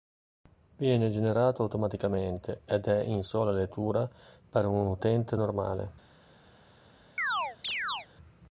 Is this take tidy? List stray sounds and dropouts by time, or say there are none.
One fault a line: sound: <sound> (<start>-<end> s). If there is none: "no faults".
sound: chirp (7.2-8.1 s)